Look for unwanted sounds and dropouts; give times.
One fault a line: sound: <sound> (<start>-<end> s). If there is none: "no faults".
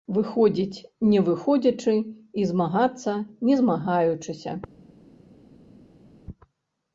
no faults